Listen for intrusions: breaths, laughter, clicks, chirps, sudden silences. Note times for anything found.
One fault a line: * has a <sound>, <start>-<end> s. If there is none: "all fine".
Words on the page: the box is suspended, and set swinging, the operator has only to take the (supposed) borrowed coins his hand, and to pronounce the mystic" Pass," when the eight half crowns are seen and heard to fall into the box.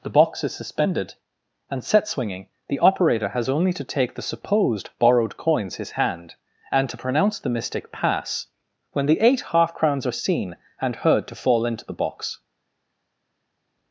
all fine